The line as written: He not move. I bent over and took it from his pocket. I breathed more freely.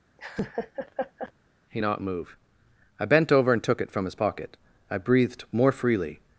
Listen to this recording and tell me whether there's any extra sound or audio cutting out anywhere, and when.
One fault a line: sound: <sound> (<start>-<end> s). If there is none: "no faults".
sound: laugh (0.2-1.3 s)